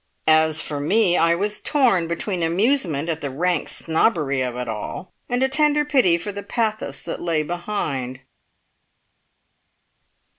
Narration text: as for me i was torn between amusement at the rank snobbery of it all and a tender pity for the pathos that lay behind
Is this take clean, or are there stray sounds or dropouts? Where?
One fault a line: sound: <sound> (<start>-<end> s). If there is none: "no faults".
no faults